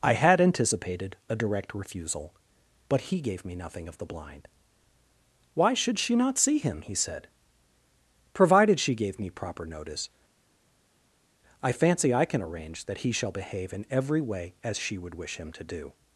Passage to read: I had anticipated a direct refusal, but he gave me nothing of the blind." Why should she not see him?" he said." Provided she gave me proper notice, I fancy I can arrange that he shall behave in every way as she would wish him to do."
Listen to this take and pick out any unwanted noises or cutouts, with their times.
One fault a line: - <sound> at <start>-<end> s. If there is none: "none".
none